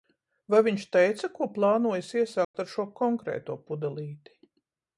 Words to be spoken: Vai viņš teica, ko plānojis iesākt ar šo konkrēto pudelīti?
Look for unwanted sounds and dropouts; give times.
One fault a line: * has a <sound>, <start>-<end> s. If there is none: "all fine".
* has a dropout, 2.4-2.5 s